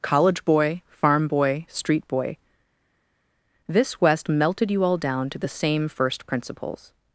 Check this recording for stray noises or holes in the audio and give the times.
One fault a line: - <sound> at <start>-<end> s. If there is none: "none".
none